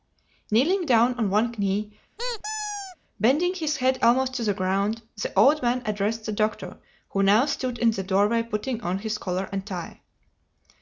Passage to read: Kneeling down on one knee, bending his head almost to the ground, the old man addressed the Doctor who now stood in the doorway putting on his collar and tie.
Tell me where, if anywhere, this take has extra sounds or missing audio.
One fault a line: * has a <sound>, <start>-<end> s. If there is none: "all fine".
* has a squeak, 2.2-3.0 s